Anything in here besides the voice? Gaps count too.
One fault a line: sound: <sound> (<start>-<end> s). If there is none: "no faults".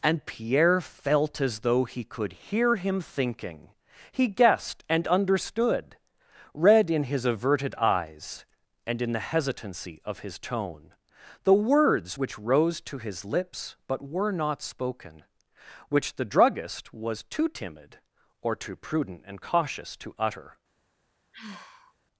sound: sigh (21.3-21.9 s)